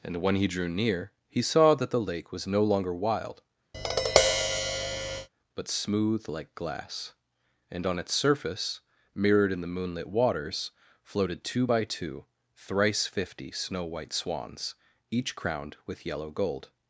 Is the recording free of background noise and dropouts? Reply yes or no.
no